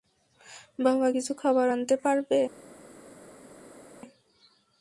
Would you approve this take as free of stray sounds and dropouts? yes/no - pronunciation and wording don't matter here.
yes